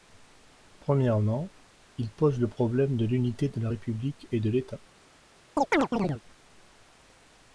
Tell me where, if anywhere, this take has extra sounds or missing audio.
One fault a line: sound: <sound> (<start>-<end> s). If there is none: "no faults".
sound: chirp (5.6-6.2 s)